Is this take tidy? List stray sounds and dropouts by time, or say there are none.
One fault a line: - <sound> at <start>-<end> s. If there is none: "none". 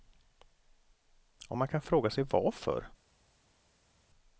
none